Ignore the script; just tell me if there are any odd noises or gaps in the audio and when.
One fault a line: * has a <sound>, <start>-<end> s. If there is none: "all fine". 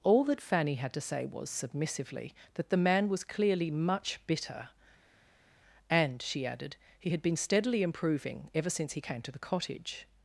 all fine